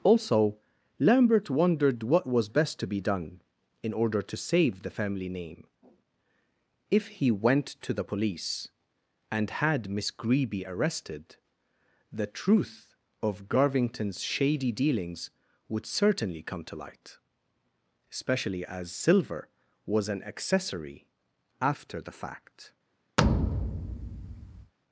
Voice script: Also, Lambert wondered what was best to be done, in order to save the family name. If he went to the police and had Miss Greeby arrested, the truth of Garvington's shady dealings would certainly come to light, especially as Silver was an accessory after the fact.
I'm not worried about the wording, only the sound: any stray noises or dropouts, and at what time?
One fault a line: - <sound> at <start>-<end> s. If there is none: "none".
- thud at 23.2-24.7 s